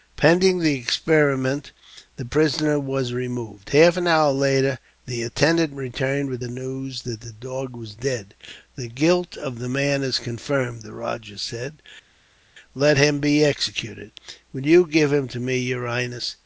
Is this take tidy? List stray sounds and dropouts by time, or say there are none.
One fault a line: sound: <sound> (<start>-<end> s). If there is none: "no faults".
no faults